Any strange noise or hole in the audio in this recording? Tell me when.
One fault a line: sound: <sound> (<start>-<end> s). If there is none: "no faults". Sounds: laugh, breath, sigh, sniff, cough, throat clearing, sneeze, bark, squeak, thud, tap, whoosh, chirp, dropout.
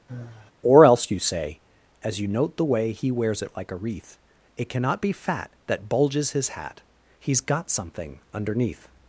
sound: sigh (0.1-0.5 s)